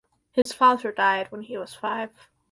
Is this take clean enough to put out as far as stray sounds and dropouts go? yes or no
no